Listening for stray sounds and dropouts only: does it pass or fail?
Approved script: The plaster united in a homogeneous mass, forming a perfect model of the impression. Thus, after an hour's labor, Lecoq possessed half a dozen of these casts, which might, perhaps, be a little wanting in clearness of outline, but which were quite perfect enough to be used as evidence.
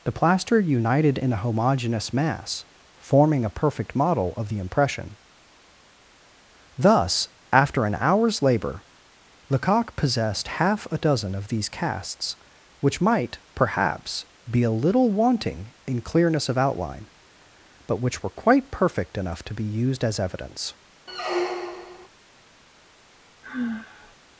fail